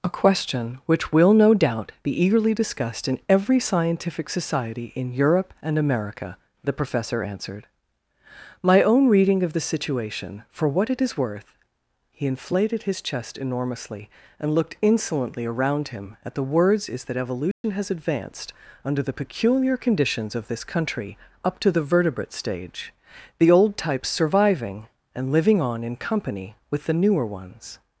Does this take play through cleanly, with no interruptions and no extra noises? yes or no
no